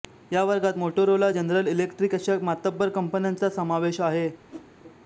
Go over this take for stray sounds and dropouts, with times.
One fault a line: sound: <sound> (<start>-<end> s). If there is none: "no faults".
sound: whoosh (4.5-4.7 s)